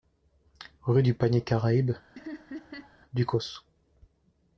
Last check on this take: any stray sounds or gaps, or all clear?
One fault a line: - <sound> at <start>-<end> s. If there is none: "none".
- laugh at 2.2-3.0 s